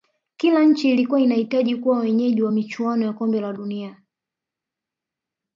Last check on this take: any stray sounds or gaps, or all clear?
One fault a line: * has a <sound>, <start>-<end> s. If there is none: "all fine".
all fine